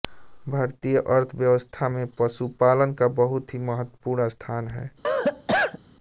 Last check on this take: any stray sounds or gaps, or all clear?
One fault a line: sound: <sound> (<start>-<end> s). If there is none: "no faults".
sound: cough (5.0-5.8 s)